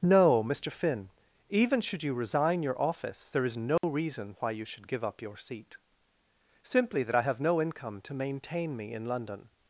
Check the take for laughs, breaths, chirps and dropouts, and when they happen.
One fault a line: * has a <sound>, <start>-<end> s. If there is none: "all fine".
* has a dropout, 3.8-3.8 s